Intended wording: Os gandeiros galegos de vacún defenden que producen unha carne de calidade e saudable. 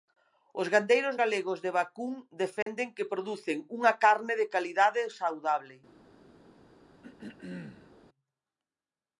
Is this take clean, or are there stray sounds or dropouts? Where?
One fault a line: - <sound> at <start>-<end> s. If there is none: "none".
- dropout at 2.6-2.7 s
- throat clearing at 7.0-7.9 s